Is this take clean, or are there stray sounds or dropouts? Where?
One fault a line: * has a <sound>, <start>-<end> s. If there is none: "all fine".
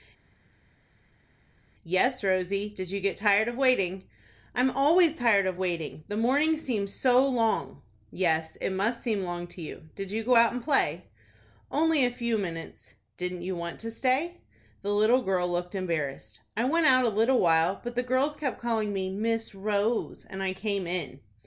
all fine